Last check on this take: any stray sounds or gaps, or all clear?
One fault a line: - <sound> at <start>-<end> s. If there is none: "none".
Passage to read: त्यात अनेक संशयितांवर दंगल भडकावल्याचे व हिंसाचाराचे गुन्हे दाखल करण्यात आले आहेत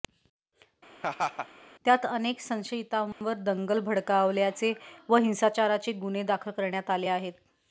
- laugh at 1.0-1.5 s
- dropout at 3.1-3.2 s